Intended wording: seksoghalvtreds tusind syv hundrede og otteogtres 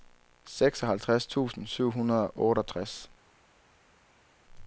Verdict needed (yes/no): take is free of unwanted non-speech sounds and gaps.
yes